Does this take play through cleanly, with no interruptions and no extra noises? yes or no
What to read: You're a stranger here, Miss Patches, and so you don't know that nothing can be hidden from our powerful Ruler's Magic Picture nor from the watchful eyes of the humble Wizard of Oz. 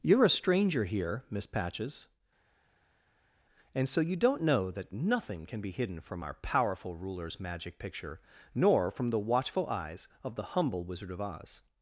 yes